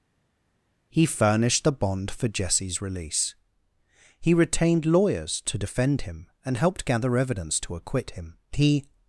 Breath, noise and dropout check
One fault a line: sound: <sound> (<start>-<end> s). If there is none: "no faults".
no faults